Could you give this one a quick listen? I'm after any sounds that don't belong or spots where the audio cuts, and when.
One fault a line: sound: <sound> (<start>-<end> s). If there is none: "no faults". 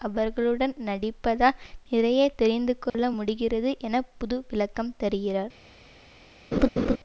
sound: dropout (2.9-2.9 s)
sound: laugh (6.5-7.0 s)